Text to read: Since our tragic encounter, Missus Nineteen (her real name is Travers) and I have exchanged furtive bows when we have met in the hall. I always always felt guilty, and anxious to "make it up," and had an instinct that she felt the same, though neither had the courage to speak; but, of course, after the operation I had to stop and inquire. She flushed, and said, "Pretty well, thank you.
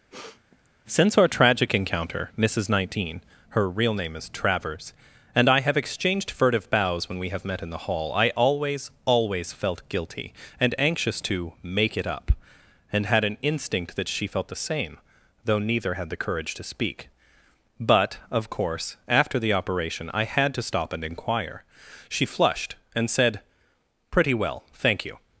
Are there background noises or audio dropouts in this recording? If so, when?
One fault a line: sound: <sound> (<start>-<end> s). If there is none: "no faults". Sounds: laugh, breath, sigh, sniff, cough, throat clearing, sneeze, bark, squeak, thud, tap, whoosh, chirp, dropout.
sound: sniff (0.1-0.7 s)